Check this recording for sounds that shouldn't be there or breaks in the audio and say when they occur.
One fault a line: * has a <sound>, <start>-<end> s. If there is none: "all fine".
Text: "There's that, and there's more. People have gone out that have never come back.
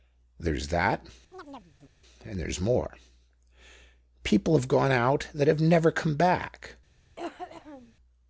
* has a chirp, 1.3-1.9 s
* has a cough, 7.2-7.9 s